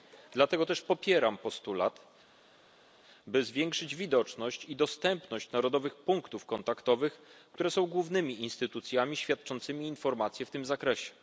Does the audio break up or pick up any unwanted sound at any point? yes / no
no